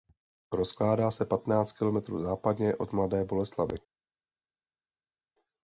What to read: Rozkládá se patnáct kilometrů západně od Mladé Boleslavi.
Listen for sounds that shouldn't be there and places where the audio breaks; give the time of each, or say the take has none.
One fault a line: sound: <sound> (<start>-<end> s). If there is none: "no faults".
no faults